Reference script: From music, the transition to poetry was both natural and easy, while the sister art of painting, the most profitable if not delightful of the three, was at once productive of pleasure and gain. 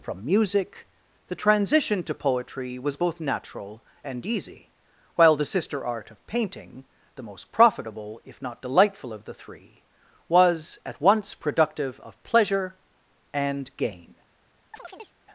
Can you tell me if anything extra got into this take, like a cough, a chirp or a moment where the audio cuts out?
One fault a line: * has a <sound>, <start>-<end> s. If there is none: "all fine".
* has a chirp, 14.7-15.2 s